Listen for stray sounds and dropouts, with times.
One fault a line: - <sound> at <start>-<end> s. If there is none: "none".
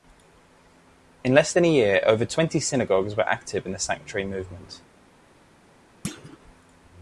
- thud at 6.0-6.4 s